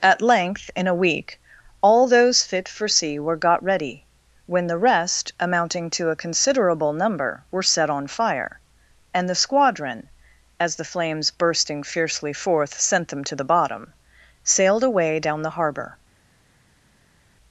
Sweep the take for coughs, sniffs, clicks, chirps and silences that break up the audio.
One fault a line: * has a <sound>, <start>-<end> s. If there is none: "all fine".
all fine